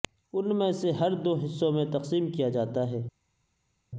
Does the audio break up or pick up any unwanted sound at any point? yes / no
no